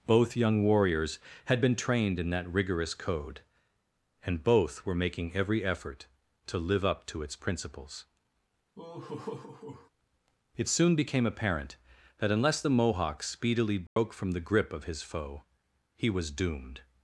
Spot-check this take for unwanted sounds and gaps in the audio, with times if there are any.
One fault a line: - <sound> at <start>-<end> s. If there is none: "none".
- laugh at 8.7-9.9 s
- dropout at 13.9-14.0 s